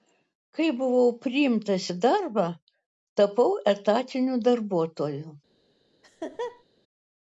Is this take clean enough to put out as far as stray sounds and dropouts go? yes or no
no